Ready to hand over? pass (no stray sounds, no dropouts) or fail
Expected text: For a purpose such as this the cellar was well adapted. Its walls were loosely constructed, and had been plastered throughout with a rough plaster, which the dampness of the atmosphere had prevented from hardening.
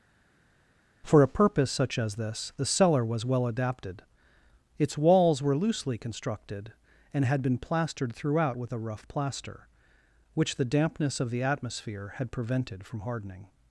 pass